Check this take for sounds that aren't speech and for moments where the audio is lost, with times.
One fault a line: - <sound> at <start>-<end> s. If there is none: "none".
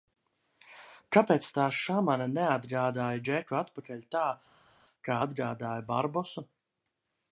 none